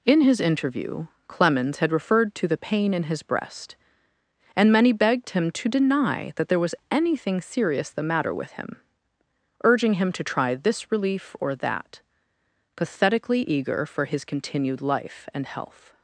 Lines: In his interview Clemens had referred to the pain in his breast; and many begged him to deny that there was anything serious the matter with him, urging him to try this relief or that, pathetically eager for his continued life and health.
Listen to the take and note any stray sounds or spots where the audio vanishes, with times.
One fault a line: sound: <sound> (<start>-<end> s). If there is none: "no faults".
no faults